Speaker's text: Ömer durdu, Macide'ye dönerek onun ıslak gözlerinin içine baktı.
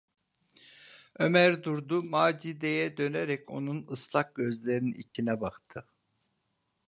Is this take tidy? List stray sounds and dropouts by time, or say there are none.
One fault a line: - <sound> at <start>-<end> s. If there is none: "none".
- dropout at 5.1-5.2 s